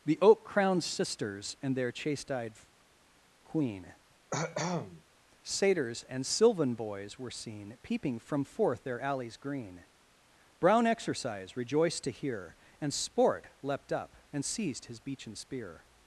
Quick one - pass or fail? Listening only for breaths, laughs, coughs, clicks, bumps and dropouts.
fail